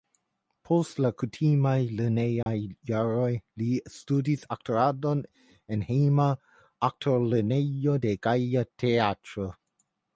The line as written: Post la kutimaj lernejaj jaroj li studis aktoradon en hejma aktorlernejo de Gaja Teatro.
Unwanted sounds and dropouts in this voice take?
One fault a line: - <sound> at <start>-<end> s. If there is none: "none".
- dropout at 2.4-2.5 s